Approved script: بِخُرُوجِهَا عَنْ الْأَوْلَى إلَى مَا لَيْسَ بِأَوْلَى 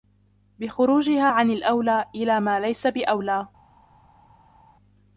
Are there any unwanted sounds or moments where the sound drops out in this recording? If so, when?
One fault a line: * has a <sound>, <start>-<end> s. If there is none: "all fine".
all fine